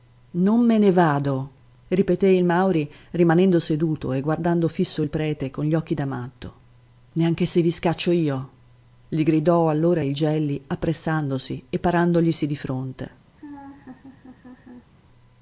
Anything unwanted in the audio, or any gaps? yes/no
yes